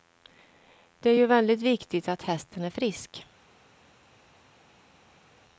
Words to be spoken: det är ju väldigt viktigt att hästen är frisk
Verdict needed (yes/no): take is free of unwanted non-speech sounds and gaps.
yes